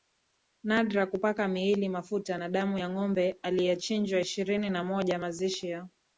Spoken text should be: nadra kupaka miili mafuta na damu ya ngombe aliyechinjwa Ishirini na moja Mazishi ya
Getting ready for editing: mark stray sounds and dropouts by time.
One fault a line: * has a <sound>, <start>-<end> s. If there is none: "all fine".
all fine